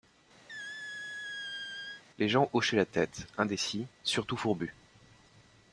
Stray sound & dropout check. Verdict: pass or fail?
fail